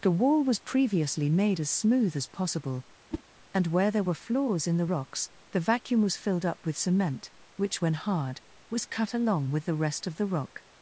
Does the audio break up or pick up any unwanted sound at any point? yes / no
yes